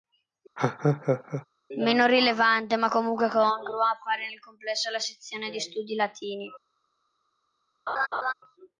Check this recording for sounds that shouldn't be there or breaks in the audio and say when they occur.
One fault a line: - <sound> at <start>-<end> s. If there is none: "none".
- laugh at 0.6-1.5 s
- laugh at 7.9-8.3 s